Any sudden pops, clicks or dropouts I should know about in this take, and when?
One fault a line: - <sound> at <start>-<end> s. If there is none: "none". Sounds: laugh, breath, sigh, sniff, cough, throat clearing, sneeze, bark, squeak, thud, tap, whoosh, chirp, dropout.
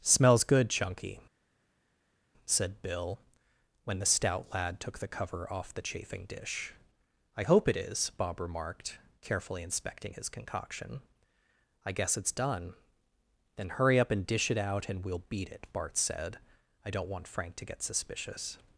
none